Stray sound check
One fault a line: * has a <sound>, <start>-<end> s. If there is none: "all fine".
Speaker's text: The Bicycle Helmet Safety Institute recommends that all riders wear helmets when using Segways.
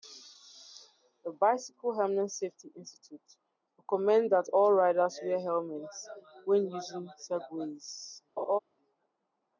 * has a laugh, 8.4-8.6 s